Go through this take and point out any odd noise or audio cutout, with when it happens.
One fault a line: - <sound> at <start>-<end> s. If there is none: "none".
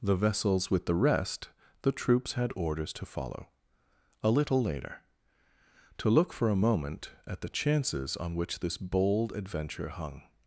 none